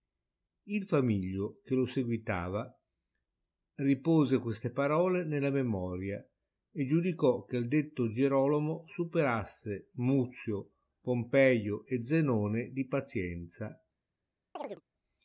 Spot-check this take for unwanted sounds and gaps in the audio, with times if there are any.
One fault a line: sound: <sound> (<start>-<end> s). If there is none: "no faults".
sound: chirp (14.6-14.8 s)